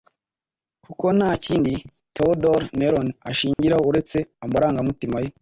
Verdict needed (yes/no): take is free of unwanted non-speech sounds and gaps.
no